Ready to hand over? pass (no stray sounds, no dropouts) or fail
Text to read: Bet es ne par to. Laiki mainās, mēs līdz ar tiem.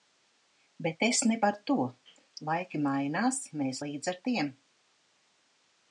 pass